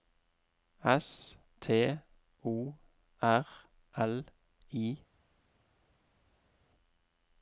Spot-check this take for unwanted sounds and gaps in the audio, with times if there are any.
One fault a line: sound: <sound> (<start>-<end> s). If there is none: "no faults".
no faults